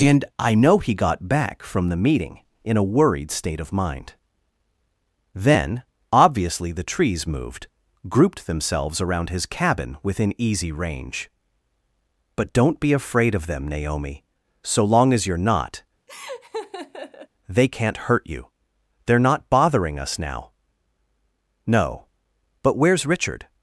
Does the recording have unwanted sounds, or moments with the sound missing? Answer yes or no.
yes